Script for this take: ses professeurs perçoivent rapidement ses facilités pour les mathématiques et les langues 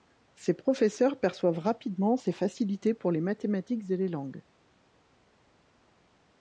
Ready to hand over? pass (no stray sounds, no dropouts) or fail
pass